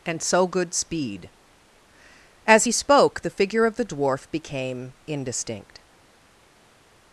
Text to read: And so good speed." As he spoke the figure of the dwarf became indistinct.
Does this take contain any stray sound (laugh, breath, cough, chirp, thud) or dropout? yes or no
no